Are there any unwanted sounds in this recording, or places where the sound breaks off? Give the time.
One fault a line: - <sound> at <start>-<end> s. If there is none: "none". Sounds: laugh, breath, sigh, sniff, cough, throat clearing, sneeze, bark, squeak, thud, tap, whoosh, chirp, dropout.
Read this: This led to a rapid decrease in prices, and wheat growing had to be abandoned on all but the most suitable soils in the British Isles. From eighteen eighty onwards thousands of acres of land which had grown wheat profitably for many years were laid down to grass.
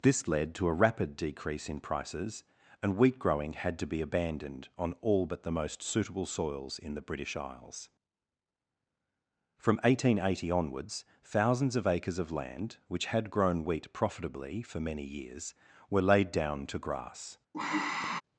- sigh at 17.5-18.2 s